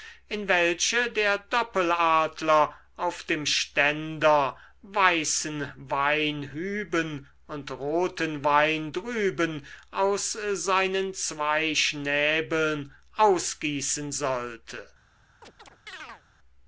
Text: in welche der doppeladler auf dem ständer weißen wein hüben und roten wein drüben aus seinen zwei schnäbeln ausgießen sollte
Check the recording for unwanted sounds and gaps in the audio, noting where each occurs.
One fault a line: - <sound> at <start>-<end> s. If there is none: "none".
- chirp at 15.4-16.2 s